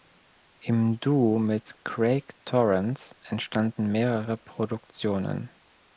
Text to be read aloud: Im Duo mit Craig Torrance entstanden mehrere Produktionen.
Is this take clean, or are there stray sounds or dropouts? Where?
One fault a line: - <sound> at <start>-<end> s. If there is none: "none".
none